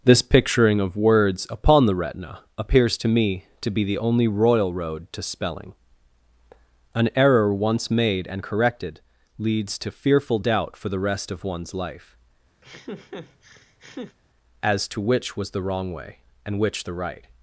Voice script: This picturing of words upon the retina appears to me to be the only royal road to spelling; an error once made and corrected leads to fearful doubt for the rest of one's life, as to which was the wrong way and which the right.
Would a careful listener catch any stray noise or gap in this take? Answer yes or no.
yes